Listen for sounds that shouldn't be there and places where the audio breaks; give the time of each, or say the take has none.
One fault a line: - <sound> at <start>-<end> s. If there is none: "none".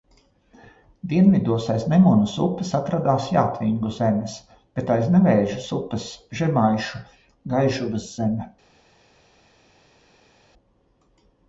none